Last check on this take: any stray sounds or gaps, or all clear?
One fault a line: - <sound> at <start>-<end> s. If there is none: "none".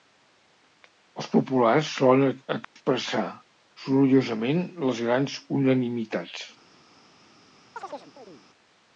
- dropout at 2.6-2.8 s
- chirp at 7.8-8.4 s